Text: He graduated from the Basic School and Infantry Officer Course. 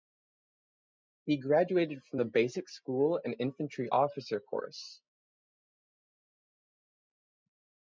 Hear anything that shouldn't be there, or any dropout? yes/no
no